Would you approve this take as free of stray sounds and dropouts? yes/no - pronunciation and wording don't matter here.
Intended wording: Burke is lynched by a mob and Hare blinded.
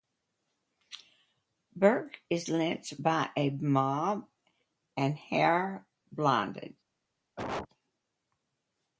no